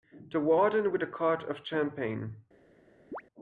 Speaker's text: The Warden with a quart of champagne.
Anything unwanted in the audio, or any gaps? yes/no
yes